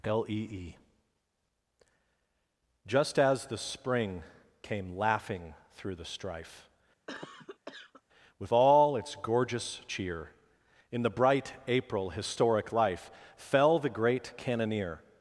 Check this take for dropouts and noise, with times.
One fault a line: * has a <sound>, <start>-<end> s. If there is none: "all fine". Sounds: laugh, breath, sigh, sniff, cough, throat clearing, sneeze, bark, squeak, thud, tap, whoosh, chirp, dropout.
* has a cough, 7.1-8.0 s